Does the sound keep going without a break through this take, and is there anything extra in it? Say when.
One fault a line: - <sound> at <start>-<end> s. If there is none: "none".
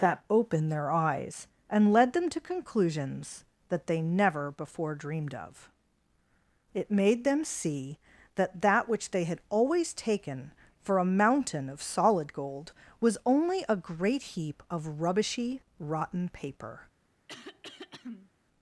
- throat clearing at 17.3-18.3 s